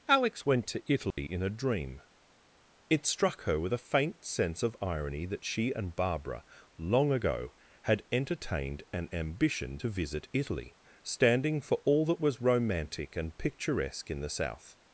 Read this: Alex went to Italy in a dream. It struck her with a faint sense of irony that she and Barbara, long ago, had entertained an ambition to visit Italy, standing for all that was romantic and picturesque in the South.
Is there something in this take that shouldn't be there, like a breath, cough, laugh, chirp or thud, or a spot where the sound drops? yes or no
yes